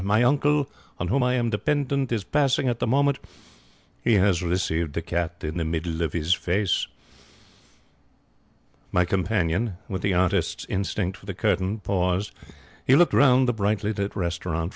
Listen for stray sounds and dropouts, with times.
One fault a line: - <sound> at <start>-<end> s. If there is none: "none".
none